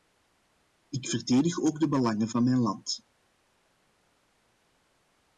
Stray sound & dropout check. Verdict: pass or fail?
pass